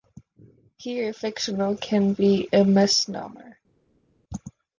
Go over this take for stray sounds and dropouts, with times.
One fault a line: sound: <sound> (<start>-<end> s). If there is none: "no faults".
no faults